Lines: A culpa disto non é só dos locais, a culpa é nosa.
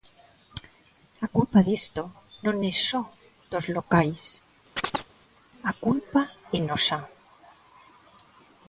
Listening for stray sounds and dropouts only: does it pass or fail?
fail